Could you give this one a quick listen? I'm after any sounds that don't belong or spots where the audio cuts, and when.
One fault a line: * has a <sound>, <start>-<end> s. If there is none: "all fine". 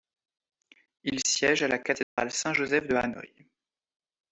* has a dropout, 2.0-2.2 s